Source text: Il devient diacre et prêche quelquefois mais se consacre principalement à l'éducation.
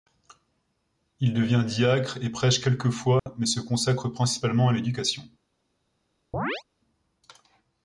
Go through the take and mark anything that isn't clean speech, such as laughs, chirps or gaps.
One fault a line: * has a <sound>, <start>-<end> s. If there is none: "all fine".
* has a dropout, 3.2-3.3 s
* has a chirp, 6.3-6.6 s